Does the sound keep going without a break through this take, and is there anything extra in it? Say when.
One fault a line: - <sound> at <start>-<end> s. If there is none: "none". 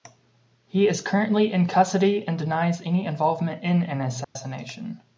- dropout at 4.2-4.4 s